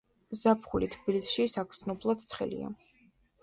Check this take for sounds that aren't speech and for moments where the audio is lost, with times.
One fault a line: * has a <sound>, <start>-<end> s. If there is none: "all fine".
all fine